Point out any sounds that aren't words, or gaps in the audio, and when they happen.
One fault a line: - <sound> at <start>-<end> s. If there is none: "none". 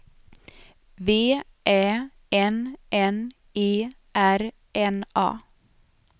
none